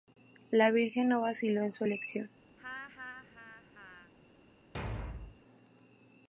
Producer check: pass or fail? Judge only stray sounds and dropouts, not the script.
fail